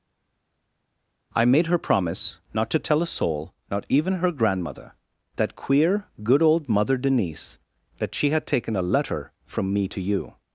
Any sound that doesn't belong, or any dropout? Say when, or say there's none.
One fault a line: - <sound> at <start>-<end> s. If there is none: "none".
none